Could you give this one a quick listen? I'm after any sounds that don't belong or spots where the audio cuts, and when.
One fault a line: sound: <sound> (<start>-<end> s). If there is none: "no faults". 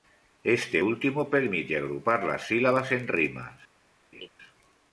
sound: laugh (4.1-4.3 s)